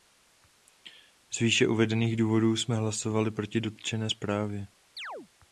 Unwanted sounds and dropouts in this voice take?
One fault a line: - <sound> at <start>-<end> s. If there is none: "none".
- chirp at 5.0-5.3 s